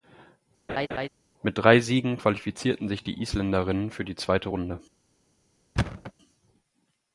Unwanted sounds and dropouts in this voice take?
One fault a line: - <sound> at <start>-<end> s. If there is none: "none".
- laugh at 0.7-1.1 s
- thud at 5.8-6.1 s